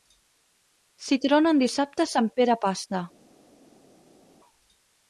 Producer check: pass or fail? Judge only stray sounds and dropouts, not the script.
pass